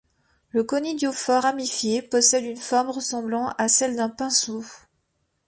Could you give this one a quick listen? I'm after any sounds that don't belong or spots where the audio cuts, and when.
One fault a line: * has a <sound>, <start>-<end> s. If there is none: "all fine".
all fine